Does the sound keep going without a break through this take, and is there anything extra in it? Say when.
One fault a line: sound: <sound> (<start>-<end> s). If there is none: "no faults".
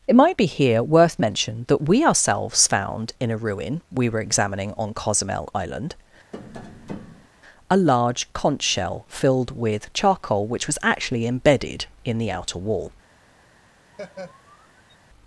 sound: tap (6.3-7.3 s)
sound: laugh (13.9-15.0 s)